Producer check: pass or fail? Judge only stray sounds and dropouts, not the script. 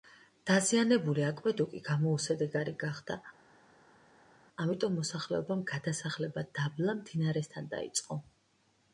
pass